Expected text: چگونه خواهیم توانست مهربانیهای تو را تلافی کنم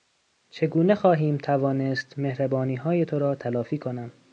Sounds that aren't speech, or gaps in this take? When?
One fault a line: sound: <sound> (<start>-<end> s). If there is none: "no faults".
no faults